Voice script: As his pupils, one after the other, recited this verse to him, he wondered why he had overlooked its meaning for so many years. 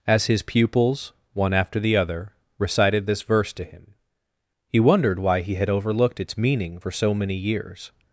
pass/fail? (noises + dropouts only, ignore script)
pass